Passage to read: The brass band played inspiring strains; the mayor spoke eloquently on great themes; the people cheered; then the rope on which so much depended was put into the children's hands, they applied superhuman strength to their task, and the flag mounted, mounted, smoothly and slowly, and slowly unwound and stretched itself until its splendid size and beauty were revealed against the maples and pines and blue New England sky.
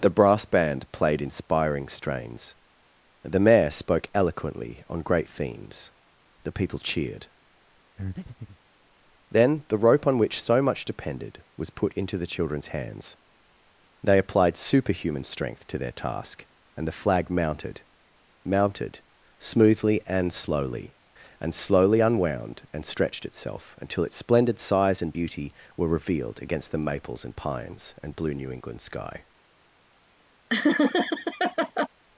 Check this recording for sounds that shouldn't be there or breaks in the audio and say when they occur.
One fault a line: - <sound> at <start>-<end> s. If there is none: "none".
- breath at 8.0-8.6 s
- laugh at 30.5-31.9 s